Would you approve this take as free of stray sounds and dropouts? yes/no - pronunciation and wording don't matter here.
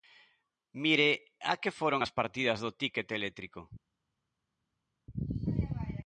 yes